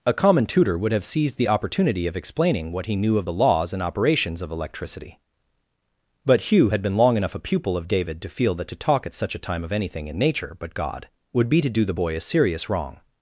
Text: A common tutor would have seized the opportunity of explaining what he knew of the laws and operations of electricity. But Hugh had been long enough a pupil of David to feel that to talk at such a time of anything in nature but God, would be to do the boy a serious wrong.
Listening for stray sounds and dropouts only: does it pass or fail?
pass